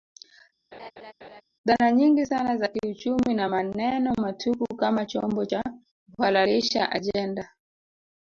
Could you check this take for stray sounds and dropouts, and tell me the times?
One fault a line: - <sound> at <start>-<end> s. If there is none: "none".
- laugh at 0.7-1.4 s